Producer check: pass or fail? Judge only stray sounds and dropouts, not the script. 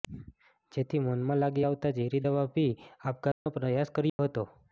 fail